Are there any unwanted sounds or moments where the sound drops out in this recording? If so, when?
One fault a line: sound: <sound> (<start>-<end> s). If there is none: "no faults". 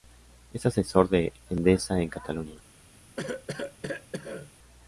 sound: cough (3.2-4.5 s)